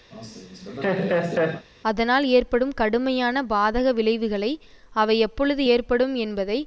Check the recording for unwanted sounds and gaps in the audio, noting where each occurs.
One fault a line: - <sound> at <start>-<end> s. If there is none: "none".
- laugh at 0.1-1.7 s